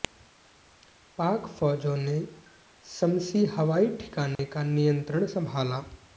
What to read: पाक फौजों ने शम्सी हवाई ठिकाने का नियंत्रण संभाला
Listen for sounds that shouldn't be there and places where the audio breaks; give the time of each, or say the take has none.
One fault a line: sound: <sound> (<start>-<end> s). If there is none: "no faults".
sound: dropout (4.3-4.4 s)